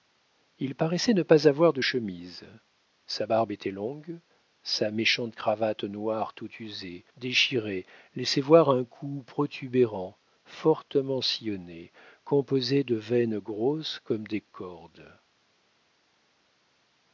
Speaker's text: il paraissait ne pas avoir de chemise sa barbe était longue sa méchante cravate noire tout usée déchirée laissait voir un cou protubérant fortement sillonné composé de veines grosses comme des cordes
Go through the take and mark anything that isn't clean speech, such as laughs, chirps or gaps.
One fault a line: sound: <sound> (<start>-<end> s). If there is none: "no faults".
no faults